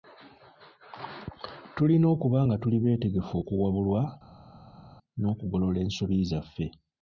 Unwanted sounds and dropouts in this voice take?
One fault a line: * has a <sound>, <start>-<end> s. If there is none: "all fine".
all fine